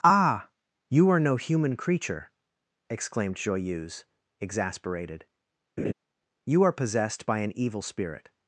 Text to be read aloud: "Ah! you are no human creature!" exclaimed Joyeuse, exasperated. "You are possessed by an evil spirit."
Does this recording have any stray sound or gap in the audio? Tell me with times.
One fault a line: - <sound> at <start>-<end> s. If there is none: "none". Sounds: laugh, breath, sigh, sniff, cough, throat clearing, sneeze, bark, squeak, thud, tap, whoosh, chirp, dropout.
- laugh at 5.8-5.9 s